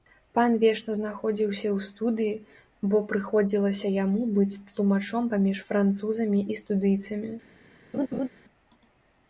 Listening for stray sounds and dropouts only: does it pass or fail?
fail